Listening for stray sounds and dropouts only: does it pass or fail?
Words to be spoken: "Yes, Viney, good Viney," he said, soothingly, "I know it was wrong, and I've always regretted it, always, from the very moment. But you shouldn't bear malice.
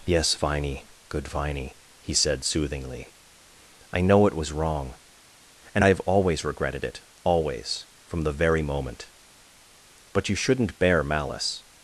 pass